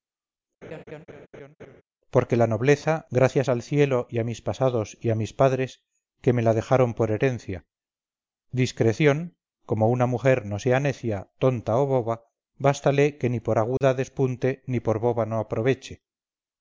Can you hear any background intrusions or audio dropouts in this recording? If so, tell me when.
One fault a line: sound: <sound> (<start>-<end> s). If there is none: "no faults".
sound: laugh (0.6-1.8 s)
sound: dropout (13.8-13.8 s)